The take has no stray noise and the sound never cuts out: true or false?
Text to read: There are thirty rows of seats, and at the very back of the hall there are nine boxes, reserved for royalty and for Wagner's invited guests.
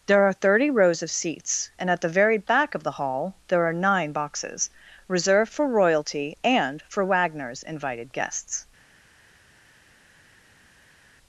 true